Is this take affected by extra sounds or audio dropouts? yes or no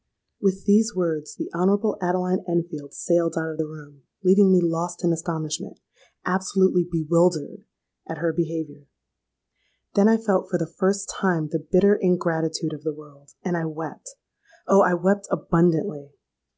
no